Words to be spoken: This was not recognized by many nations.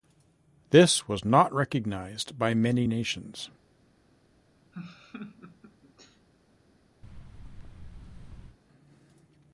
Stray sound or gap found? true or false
true